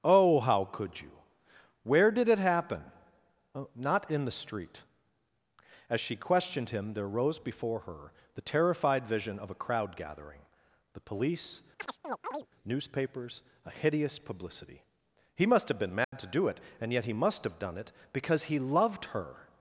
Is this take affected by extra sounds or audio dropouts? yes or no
yes